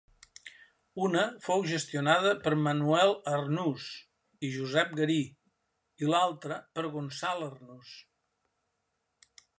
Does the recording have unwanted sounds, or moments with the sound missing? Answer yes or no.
no